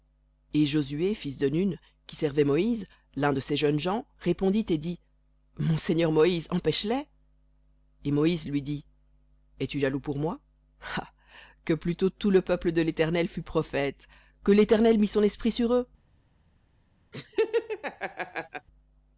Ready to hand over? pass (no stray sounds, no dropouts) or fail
fail